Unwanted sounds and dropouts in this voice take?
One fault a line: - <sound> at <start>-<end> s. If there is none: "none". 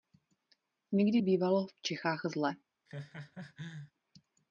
- laugh at 2.9-3.9 s